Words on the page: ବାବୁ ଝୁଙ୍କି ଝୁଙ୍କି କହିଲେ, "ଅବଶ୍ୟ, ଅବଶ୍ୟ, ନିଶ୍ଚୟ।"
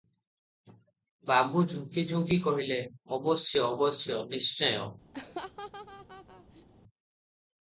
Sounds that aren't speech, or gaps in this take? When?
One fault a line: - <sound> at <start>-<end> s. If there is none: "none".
- laugh at 5.1-6.6 s